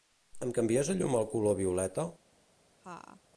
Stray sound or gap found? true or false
true